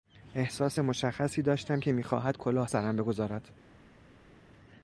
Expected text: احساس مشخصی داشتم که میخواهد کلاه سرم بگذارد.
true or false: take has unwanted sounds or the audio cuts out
false